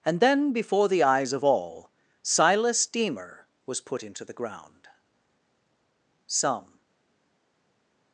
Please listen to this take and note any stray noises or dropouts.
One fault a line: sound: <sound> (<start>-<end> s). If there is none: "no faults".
no faults